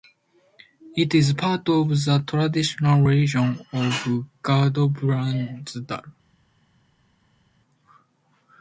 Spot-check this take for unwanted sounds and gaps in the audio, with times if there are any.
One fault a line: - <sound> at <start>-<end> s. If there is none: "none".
none